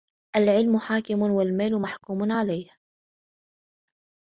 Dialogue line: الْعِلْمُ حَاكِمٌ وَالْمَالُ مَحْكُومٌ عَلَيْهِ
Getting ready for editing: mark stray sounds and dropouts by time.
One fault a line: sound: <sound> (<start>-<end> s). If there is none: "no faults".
no faults